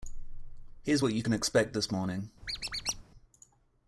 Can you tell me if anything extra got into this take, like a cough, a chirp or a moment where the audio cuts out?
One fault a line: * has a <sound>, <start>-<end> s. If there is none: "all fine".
* has a squeak, 2.4-3.0 s